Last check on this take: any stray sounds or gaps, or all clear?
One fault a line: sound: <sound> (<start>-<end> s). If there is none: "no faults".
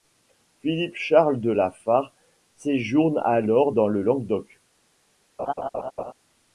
sound: laugh (5.4-6.1 s)